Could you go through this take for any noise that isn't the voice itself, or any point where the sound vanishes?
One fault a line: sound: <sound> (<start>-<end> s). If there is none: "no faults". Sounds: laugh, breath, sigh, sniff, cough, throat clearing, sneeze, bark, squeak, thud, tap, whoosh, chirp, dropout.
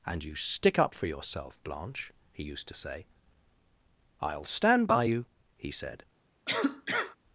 sound: cough (6.5-7.2 s)